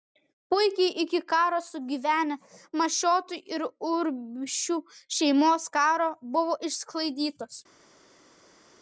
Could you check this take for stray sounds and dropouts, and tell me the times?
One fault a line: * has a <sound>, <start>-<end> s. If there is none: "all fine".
all fine